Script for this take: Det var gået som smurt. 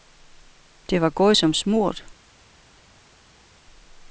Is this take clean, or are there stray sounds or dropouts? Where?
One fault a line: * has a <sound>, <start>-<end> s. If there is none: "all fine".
all fine